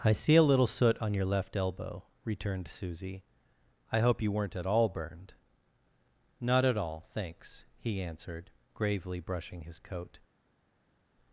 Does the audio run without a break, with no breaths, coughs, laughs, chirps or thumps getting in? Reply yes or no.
yes